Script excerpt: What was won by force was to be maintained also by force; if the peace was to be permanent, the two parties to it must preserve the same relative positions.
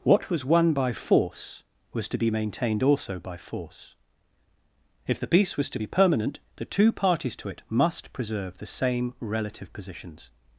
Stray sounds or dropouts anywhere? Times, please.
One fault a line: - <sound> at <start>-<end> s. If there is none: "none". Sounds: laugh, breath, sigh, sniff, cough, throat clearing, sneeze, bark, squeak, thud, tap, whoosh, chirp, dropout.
none